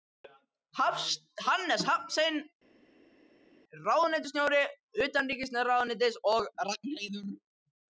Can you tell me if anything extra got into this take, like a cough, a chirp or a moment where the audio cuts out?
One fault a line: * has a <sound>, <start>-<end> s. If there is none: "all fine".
all fine